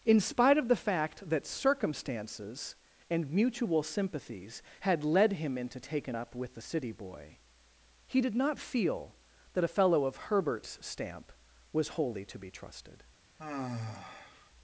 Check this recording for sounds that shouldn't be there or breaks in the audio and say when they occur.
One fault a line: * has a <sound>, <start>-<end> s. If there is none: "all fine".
* has a sigh, 13.4-14.5 s